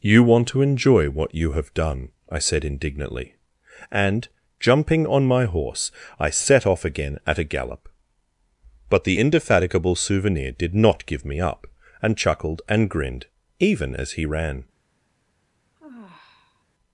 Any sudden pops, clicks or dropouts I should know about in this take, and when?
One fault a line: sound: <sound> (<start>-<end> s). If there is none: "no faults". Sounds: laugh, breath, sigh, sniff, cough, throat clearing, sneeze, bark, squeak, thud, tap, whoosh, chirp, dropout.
sound: sigh (15.8-16.6 s)